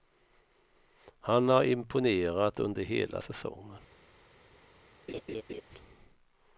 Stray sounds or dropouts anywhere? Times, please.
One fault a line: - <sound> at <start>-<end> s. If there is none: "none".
- laugh at 5.1-5.6 s